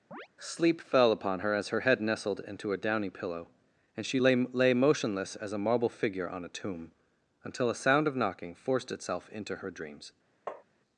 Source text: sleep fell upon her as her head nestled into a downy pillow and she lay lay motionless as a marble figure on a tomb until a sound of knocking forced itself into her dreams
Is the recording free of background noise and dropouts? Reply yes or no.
no